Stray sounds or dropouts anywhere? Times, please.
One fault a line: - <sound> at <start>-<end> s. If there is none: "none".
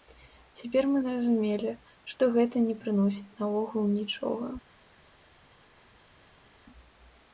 none